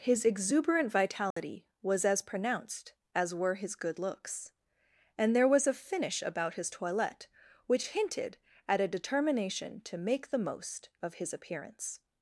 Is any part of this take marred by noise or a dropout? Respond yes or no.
yes